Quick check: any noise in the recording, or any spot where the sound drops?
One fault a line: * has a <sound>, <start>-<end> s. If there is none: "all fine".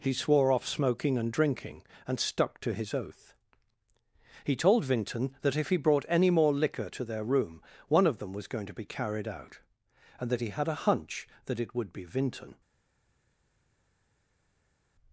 all fine